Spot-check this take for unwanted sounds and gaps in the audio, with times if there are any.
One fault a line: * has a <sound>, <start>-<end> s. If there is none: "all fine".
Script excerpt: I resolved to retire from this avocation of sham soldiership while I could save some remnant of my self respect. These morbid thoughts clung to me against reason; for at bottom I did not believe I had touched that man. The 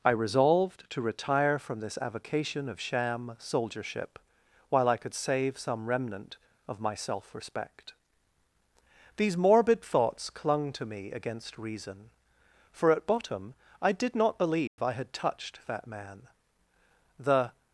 * has a dropout, 14.7-14.8 s